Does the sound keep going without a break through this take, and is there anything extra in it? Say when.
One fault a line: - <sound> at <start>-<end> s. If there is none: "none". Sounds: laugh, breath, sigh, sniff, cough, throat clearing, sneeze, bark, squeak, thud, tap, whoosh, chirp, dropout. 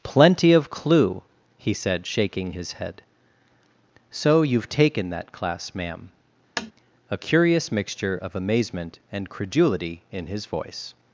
- tap at 6.6-6.7 s